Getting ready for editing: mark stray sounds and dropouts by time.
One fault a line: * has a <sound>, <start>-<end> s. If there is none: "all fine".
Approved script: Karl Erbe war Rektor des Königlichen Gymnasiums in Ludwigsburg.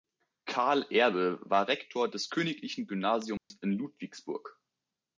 * has a dropout, 3.4-3.5 s